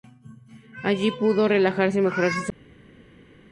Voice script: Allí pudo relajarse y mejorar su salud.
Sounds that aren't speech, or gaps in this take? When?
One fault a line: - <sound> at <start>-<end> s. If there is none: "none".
none